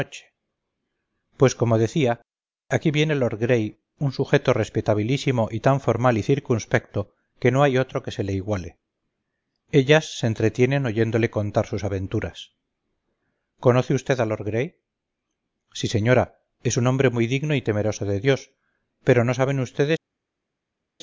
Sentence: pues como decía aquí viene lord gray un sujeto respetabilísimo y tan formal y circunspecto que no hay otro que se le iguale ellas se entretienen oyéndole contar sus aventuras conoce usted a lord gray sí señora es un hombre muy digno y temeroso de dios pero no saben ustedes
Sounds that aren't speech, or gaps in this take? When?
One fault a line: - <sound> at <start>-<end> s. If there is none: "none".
none